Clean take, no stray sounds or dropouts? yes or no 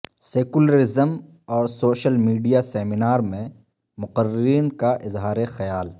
yes